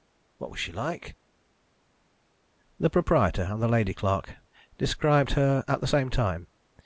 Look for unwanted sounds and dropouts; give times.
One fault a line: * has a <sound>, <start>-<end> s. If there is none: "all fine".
all fine